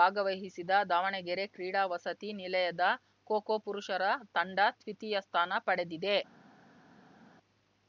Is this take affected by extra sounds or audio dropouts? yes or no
no